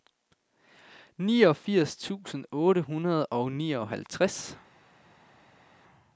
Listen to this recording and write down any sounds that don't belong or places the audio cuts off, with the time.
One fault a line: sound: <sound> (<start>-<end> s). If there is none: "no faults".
no faults